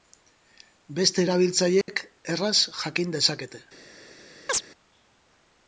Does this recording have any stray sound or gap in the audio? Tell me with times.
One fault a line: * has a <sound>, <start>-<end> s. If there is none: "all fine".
* has a dropout, 1.8-1.9 s
* has a chirp, 4.5-4.6 s